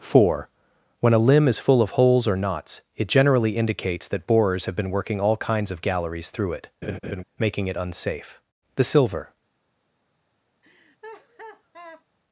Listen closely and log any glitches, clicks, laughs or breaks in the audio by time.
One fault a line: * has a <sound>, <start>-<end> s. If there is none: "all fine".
* has a laugh, 6.8-7.2 s
* has a laugh, 10.6-12.0 s